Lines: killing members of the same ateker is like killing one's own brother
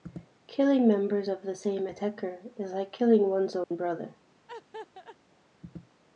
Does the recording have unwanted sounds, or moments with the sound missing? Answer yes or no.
yes